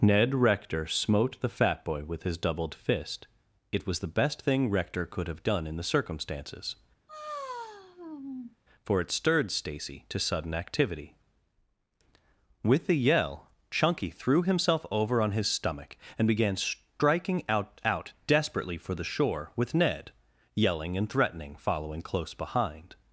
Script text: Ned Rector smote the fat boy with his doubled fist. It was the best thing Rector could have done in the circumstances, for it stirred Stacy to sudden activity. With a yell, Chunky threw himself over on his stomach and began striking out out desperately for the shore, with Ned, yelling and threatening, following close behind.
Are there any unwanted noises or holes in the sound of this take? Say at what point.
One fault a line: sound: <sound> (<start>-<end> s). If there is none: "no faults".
sound: sigh (7.1-8.6 s)